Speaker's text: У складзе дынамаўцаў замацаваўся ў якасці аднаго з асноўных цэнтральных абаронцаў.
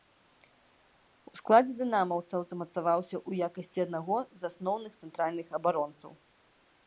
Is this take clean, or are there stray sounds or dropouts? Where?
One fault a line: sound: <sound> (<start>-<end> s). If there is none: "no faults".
no faults